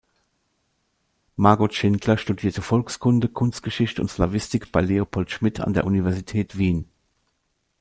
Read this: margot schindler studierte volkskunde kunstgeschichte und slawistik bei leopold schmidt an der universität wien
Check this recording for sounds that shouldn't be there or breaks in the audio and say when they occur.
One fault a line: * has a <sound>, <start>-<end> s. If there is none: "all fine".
all fine